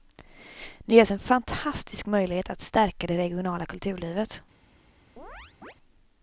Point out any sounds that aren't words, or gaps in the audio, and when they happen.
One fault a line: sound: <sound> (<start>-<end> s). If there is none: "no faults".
sound: chirp (5.2-5.7 s)